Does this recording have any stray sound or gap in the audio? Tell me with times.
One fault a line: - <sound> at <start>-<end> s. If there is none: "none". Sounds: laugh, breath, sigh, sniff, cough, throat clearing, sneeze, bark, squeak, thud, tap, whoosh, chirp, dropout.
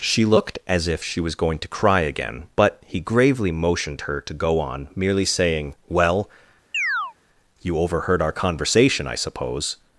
- chirp at 6.7-7.1 s